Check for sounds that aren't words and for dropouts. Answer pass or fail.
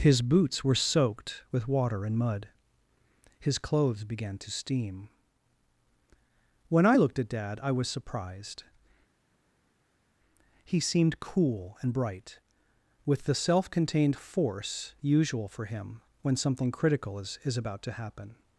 pass